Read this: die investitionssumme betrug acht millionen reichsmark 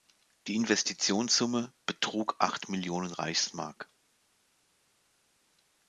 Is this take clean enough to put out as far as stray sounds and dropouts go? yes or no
yes